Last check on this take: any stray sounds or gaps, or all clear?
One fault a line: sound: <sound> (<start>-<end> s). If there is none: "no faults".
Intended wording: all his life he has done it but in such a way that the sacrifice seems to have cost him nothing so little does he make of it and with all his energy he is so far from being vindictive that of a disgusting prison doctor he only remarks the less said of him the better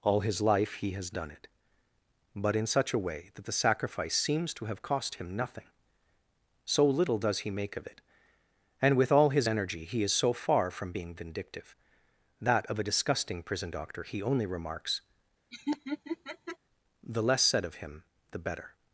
sound: laugh (15.5-16.6 s)